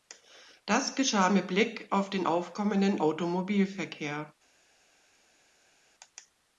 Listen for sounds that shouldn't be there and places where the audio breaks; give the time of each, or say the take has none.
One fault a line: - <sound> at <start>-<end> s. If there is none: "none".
none